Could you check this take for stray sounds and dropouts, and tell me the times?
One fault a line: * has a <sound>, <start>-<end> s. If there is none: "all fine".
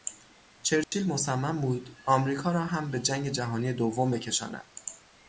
* has a dropout, 0.8-0.9 s